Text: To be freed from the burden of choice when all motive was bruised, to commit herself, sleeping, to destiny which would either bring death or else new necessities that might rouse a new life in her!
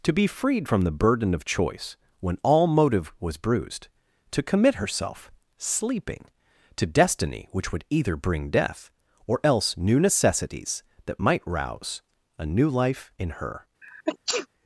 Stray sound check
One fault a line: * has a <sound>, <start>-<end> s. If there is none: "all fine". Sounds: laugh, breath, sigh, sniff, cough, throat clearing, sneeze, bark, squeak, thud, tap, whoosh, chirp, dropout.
* has a sneeze, 13.8-14.5 s